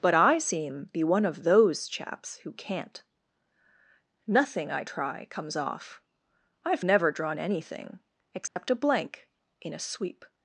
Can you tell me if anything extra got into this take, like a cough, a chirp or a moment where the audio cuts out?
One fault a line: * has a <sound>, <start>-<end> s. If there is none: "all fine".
* has a dropout, 8.5-8.6 s